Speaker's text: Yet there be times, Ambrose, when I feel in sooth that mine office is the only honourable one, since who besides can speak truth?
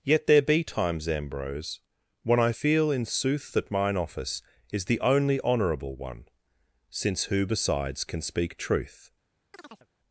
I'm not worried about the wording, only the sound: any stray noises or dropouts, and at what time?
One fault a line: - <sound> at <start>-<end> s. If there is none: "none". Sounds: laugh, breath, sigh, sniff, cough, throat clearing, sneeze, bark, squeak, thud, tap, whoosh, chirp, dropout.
- chirp at 9.5-9.9 s